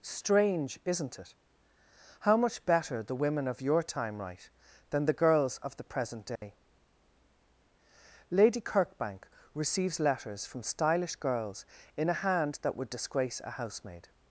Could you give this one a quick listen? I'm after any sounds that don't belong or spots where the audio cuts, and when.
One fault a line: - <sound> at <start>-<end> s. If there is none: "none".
- dropout at 6.4-6.4 s